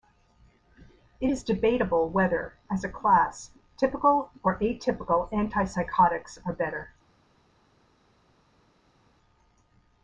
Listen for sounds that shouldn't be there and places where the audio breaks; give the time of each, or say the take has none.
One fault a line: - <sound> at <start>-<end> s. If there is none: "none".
none